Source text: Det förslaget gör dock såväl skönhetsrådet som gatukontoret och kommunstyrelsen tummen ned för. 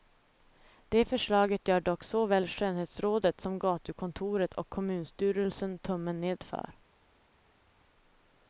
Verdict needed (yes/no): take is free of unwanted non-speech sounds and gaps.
yes